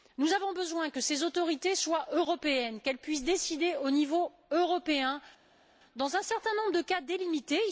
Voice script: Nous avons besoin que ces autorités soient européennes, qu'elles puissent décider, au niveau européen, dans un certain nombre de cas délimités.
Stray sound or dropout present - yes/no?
no